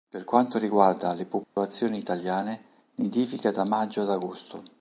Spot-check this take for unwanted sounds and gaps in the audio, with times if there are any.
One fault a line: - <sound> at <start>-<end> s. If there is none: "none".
- dropout at 1.4-1.6 s